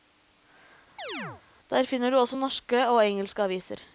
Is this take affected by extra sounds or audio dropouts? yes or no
yes